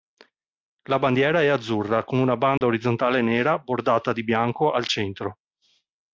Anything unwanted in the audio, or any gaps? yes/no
yes